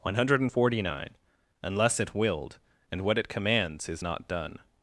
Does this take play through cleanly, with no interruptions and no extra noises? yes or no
yes